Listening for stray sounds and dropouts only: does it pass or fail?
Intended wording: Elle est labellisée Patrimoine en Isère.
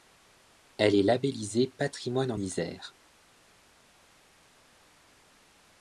pass